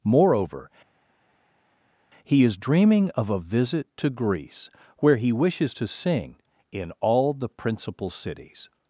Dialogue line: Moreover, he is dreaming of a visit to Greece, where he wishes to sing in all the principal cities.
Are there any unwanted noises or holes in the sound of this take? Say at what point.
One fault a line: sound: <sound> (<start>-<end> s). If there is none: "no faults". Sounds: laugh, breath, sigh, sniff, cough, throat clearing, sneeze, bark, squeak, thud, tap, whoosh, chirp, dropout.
no faults